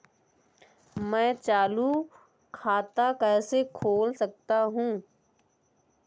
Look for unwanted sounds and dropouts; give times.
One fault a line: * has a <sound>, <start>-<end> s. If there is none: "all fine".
all fine